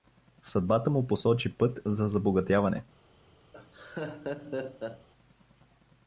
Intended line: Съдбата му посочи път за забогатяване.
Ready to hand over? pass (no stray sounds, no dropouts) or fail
fail